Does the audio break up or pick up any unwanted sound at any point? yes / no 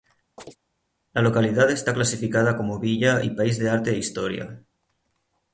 yes